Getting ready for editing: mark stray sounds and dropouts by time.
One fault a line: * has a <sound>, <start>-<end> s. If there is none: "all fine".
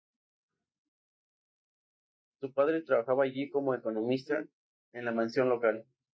all fine